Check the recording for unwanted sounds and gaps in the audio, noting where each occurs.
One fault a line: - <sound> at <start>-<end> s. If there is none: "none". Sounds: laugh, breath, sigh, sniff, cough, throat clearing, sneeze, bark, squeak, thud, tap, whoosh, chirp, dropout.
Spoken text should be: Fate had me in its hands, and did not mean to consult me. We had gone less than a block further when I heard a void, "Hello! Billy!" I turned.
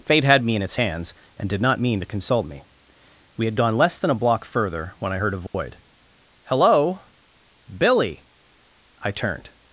- dropout at 5.5-5.5 s